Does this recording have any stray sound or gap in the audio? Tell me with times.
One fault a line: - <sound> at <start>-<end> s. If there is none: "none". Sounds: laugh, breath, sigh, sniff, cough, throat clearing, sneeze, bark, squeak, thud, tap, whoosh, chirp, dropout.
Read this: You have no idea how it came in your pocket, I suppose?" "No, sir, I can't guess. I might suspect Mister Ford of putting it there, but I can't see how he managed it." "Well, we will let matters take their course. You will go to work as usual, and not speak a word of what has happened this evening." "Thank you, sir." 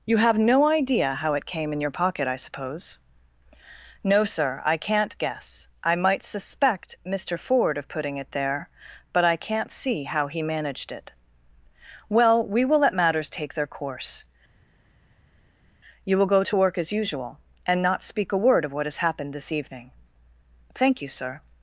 none